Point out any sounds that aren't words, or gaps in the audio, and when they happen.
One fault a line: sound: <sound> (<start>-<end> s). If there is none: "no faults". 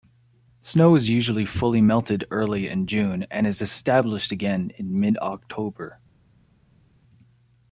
no faults